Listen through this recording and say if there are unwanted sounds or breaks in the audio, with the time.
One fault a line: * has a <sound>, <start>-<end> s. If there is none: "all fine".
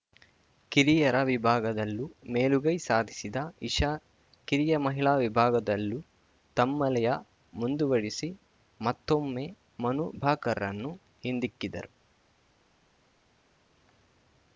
all fine